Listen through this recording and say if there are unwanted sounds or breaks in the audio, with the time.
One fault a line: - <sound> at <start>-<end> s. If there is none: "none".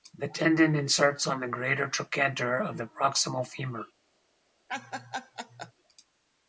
- laugh at 4.7-5.7 s